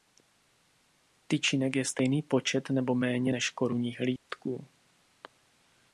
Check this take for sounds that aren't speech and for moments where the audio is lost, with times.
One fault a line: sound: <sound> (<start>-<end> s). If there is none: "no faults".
sound: dropout (4.2-4.3 s)